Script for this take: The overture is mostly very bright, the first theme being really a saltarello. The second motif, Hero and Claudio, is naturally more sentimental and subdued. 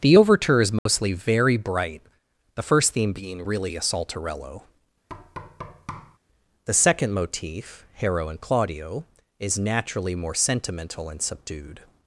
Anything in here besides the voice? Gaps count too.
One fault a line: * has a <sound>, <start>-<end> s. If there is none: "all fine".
* has a dropout, 0.8-0.9 s
* has a thud, 5.1-6.2 s